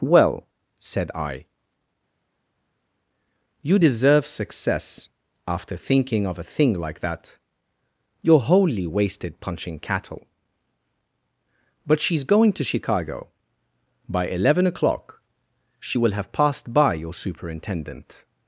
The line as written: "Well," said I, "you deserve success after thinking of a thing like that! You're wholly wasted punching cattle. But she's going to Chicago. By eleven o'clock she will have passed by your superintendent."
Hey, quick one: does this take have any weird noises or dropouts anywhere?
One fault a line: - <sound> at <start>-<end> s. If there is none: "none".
none